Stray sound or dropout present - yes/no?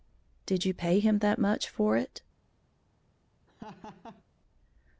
yes